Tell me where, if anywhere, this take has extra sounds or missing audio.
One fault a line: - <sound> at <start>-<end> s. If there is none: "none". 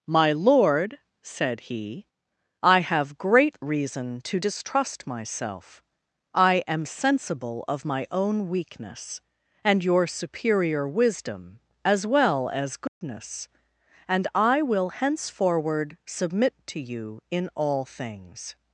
- dropout at 12.9-13.0 s